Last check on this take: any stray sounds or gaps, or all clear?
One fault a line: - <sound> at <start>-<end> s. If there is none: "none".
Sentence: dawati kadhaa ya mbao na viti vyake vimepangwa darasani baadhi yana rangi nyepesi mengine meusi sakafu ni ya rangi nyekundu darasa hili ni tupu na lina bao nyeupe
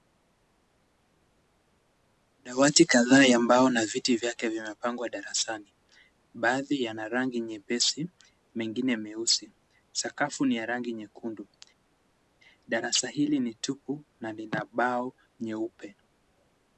none